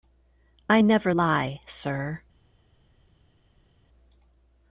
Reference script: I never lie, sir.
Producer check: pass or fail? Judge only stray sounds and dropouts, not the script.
pass